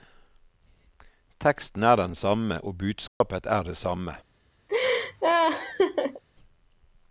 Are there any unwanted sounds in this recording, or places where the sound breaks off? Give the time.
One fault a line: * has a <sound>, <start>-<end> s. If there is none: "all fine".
* has a dropout, 3.1-3.2 s
* has a laugh, 4.7-6.2 s